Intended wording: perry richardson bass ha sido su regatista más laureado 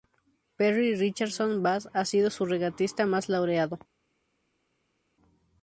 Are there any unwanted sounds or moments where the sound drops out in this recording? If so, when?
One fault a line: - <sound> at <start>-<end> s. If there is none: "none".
none